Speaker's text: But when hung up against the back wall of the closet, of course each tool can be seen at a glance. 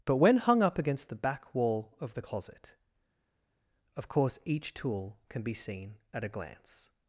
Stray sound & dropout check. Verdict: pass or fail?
pass